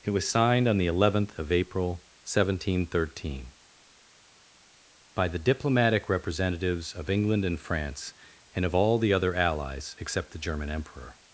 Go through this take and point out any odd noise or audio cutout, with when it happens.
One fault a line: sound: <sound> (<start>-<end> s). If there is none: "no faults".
no faults